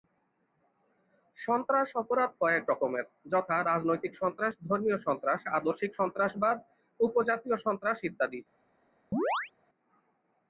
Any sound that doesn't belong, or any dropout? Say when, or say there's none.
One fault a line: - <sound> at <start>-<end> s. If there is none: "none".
- chirp at 9.1-9.5 s